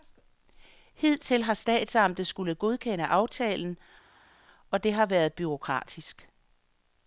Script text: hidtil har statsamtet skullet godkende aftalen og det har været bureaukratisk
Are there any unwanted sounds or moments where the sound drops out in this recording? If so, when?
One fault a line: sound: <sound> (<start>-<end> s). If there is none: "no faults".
no faults